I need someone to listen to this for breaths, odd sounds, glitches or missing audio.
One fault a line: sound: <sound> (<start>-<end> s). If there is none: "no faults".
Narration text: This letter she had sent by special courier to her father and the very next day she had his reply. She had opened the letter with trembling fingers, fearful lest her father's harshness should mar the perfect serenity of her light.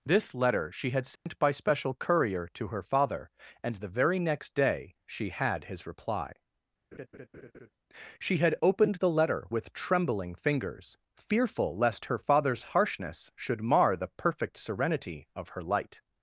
sound: dropout (1.2-1.3 s)
sound: laugh (6.9-7.7 s)